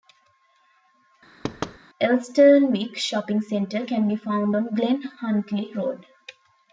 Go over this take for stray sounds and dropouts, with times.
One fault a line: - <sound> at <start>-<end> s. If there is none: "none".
- thud at 1.4-1.8 s